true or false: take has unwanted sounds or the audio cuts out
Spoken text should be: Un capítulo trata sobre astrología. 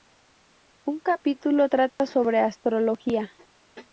true